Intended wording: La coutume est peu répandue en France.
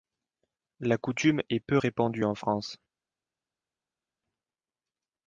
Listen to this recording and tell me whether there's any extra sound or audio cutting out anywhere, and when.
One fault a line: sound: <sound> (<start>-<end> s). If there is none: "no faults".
no faults